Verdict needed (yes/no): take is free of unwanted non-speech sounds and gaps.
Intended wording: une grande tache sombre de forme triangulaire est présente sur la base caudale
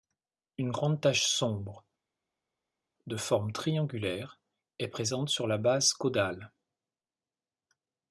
yes